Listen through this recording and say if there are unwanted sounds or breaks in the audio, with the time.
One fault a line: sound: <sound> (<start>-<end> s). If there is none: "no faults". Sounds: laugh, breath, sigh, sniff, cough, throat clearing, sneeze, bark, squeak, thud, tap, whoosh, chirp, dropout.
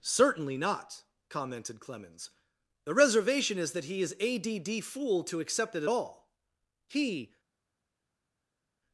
no faults